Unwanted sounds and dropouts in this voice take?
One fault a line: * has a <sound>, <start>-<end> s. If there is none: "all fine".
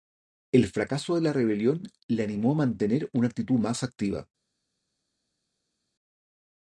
all fine